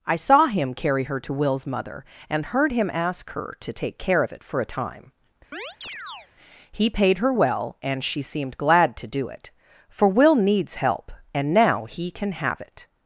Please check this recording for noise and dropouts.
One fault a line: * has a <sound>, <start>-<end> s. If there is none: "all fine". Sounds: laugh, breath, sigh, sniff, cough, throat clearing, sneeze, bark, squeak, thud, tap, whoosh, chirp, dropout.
* has a chirp, 5.5-6.3 s